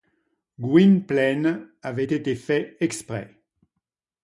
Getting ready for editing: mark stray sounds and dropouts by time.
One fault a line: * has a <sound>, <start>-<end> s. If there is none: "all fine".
all fine